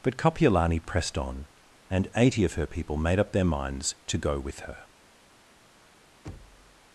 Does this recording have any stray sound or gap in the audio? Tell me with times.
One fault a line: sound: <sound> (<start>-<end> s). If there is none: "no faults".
sound: thud (6.2-6.8 s)